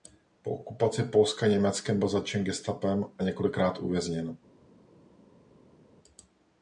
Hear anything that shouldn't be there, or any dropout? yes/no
no